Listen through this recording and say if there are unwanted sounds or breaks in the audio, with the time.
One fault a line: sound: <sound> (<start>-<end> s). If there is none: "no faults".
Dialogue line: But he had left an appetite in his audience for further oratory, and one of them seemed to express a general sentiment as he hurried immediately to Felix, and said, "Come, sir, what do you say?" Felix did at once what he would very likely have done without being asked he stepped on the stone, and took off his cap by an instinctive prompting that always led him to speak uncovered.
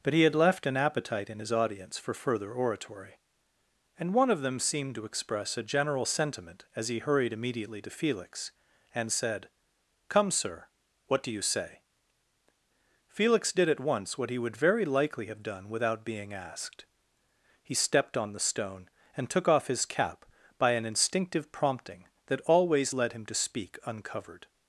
no faults